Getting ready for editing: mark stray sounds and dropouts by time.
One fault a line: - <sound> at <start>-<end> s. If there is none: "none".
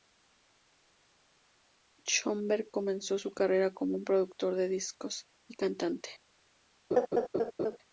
- laugh at 6.9-7.8 s